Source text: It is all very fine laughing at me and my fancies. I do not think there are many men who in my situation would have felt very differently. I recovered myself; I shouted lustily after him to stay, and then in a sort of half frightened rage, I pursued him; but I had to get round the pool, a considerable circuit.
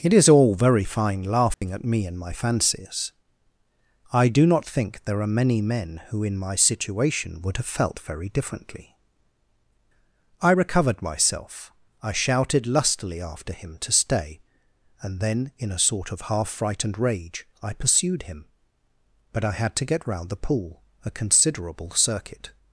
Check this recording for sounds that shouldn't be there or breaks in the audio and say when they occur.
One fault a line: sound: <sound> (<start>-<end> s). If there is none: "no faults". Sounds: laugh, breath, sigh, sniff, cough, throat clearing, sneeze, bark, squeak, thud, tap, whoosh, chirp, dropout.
sound: dropout (1.5-1.6 s)